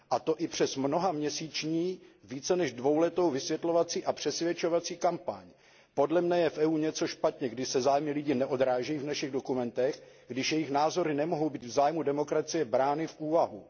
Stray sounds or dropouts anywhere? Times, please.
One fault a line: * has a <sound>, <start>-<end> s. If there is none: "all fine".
all fine